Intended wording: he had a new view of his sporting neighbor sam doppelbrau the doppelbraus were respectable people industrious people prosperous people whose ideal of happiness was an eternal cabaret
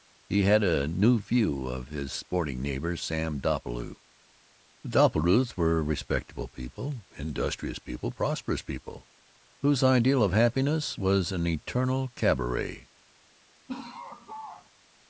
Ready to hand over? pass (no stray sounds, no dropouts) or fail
fail